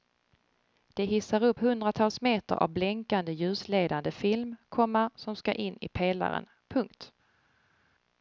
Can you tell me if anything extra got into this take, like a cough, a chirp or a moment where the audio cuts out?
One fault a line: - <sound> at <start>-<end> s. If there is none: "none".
none